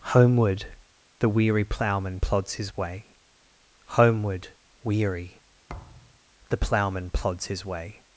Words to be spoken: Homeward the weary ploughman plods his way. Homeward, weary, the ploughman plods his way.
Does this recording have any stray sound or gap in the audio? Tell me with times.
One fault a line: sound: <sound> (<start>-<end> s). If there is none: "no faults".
sound: thud (5.7-6.2 s)